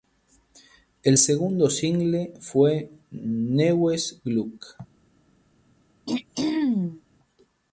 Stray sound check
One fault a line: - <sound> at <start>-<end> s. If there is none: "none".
- throat clearing at 6.1-7.0 s